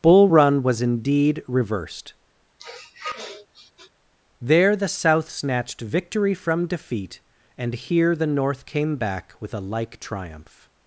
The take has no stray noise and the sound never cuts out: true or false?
false